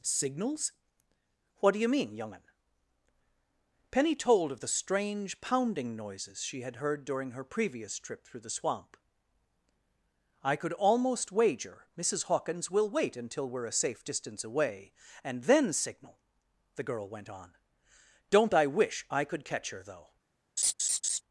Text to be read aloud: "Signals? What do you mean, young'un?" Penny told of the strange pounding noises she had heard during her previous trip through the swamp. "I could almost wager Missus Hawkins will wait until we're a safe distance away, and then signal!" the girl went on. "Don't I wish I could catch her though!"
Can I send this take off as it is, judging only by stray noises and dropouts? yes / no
no